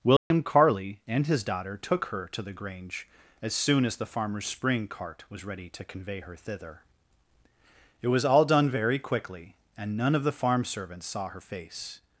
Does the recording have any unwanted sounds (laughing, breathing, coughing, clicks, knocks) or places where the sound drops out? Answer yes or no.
yes